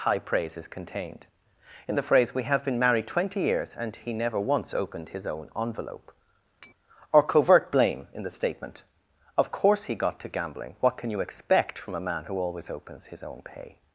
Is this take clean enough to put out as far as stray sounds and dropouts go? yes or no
no